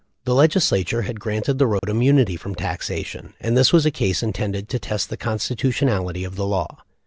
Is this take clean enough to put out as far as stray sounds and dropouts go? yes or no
no